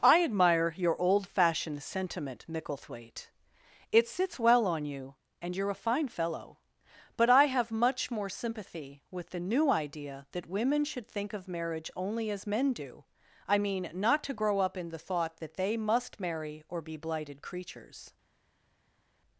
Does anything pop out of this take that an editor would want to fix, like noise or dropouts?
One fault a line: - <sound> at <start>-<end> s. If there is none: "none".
none